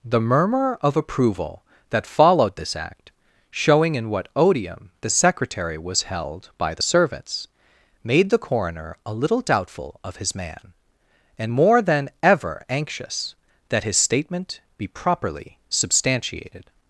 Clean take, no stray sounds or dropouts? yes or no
yes